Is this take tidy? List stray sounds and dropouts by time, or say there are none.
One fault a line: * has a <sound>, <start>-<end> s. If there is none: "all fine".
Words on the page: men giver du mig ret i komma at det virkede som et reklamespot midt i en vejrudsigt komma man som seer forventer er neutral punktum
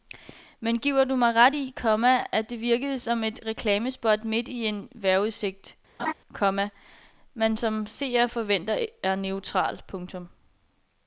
* has a laugh, 6.0-6.1 s